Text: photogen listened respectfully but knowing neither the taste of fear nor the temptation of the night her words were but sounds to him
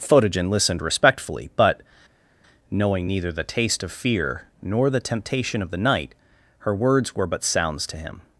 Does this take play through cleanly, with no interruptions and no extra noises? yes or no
yes